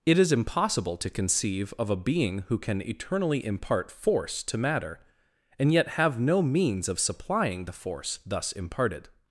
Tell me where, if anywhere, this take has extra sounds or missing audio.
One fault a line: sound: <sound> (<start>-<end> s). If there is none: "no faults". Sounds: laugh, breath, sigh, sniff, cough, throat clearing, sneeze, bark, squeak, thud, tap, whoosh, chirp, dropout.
no faults